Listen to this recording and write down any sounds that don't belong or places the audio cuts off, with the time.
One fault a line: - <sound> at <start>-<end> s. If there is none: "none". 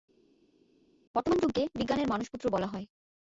none